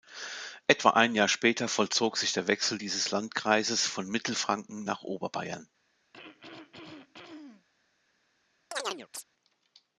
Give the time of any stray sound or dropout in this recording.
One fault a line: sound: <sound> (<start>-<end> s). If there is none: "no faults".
sound: throat clearing (6.1-7.7 s)
sound: chirp (8.7-9.2 s)